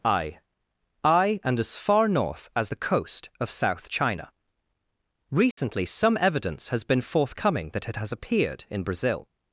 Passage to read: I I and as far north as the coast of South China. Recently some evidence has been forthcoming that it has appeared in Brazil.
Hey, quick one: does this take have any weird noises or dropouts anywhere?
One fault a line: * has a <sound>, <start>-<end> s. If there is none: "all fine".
* has a dropout, 5.5-5.6 s